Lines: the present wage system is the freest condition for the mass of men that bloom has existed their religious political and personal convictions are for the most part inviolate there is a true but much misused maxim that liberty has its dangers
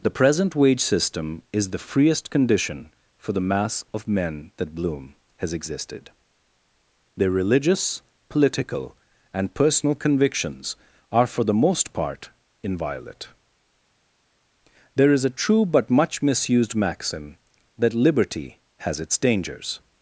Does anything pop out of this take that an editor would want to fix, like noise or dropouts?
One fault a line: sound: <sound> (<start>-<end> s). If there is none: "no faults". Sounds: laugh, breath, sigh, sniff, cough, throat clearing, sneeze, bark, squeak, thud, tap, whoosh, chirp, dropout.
no faults